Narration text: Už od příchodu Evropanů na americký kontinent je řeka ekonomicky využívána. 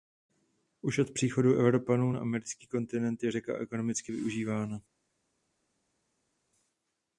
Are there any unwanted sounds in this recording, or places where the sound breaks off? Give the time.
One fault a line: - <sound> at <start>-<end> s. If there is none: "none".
none